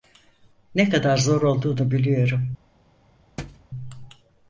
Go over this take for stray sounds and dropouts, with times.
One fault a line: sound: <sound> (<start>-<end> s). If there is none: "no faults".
sound: thud (3.4-3.7 s)